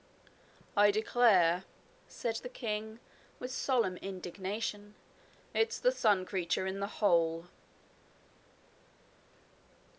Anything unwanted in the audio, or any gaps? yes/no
no